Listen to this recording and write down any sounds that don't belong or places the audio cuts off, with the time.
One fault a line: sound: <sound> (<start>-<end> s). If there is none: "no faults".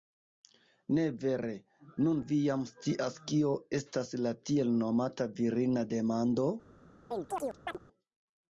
sound: chirp (7.1-7.8 s)